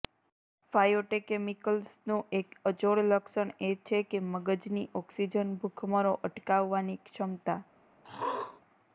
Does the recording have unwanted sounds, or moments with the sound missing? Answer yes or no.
yes